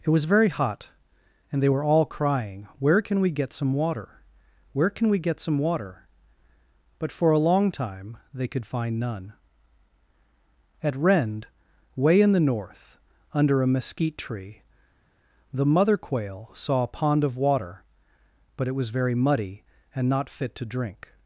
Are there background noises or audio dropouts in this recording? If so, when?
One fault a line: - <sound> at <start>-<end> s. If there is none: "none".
none